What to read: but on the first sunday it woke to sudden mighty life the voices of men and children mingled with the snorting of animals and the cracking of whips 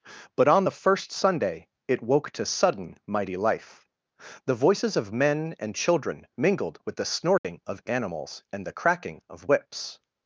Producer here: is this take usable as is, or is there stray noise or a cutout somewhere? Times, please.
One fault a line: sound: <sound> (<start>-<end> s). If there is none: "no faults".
sound: dropout (7.4-7.4 s)